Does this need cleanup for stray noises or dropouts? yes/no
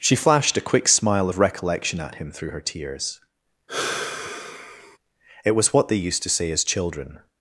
yes